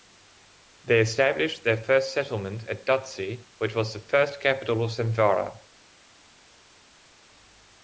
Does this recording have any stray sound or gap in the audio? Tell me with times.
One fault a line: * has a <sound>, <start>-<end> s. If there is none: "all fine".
all fine